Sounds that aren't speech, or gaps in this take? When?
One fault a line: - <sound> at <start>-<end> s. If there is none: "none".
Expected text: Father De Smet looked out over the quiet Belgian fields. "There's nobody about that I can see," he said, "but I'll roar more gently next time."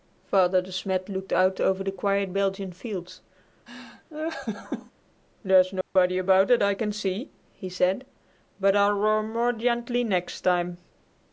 - laugh at 3.7-4.9 s
- dropout at 5.8-6.0 s